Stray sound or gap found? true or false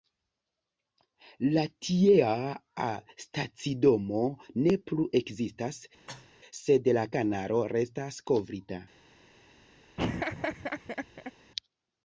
true